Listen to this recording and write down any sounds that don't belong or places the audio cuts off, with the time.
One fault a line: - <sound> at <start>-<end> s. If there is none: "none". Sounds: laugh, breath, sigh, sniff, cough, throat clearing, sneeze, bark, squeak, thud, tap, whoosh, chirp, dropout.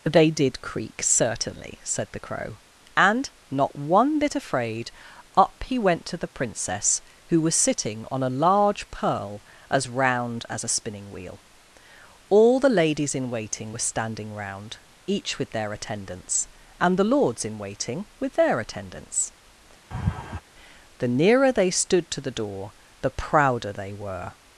- laugh at 19.9-20.4 s